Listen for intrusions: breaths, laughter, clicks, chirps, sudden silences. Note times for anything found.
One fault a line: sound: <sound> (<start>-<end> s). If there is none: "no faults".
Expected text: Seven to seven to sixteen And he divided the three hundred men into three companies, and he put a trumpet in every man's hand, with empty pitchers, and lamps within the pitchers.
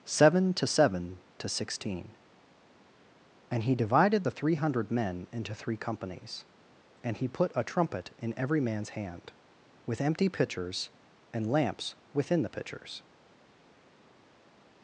no faults